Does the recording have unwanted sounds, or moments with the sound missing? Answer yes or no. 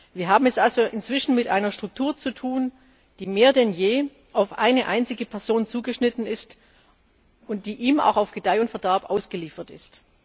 no